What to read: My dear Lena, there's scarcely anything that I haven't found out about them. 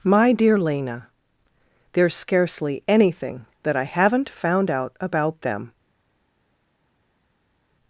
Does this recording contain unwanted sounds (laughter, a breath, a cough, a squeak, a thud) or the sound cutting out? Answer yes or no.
no